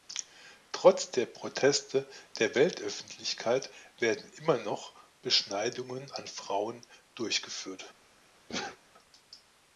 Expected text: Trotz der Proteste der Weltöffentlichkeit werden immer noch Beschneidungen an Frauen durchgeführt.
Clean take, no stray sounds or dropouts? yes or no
no